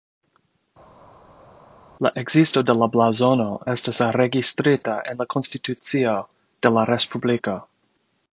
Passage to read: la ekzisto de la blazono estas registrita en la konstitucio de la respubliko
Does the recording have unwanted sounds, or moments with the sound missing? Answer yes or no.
no